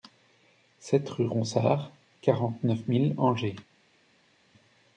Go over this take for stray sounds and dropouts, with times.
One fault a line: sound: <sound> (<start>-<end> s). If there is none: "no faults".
no faults